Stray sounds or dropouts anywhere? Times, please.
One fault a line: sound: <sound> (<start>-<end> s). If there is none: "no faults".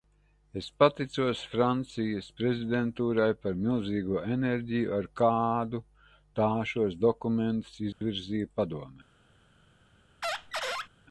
sound: dropout (7.9-8.0 s)
sound: squeak (10.2-10.9 s)